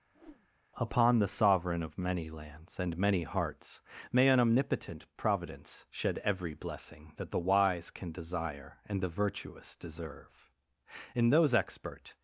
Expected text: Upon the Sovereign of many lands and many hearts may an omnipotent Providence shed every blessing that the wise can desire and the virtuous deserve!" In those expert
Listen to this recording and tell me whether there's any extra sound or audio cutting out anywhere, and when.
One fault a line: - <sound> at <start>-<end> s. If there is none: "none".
- whoosh at 0.1-0.5 s